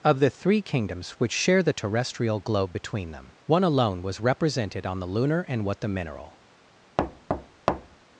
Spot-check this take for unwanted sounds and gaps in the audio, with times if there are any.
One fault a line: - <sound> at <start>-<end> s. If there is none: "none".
- thud at 7.0-8.0 s